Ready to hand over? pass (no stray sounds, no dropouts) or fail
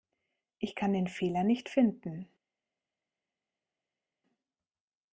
pass